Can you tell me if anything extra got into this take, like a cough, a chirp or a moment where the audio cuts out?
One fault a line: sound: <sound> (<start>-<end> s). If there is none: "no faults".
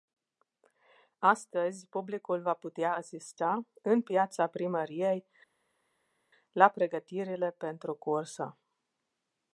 no faults